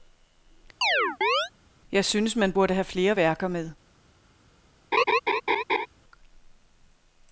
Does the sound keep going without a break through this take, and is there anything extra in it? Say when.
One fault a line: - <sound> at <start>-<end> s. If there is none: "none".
- chirp at 0.8-1.5 s
- laugh at 4.9-5.9 s